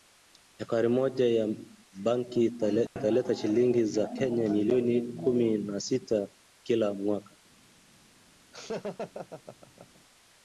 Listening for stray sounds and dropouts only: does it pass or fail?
fail